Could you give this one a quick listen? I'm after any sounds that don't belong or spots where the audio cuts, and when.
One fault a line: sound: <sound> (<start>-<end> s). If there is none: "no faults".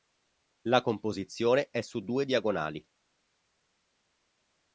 no faults